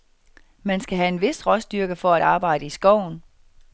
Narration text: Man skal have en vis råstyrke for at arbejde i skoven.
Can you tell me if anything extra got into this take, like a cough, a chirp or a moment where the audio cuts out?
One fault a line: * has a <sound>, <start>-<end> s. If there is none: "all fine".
all fine